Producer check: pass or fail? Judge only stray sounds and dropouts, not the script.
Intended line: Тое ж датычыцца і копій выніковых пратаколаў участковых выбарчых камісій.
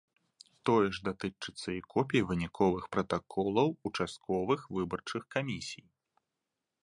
pass